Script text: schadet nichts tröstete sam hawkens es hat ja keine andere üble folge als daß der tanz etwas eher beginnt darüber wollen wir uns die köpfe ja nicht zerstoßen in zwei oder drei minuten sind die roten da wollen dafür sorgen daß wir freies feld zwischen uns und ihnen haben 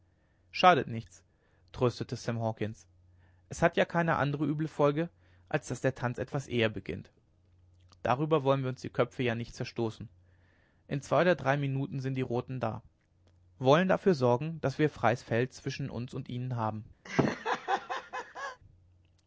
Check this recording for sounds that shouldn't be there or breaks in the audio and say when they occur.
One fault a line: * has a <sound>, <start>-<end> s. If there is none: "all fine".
* has a laugh, 17.0-18.6 s